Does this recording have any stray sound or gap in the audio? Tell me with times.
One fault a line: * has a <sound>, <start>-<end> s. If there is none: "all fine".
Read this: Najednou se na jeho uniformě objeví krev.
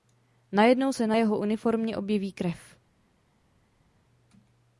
all fine